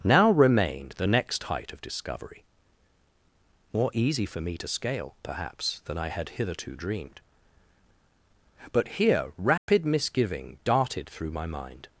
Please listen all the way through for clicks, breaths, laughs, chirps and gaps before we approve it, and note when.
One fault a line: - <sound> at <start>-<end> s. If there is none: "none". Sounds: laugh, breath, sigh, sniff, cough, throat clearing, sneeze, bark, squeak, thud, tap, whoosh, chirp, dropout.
- dropout at 9.6-9.7 s